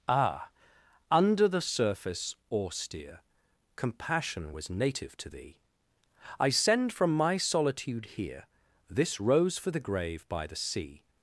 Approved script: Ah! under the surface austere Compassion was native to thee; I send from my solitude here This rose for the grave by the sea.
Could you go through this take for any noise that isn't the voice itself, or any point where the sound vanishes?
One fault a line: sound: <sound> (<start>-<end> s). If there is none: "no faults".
no faults